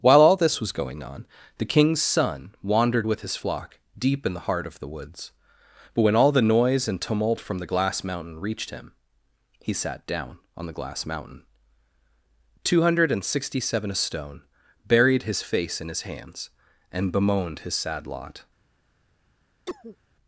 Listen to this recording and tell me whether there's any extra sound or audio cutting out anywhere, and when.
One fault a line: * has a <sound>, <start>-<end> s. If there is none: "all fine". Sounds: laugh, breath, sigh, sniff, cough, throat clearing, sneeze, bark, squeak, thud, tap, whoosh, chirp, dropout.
* has a cough, 19.7-20.0 s